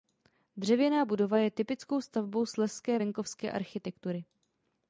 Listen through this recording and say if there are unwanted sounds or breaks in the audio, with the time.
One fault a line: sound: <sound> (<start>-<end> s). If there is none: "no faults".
no faults